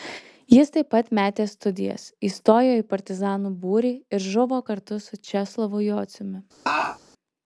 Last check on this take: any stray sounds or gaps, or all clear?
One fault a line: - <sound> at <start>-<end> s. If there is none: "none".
- laugh at 6.7-7.0 s